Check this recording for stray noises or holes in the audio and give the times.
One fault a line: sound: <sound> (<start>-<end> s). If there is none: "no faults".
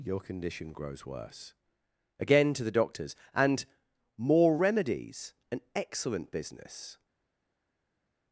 no faults